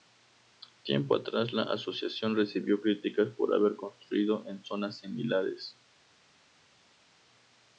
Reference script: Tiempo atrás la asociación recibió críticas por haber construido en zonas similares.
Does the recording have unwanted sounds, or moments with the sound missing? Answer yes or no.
no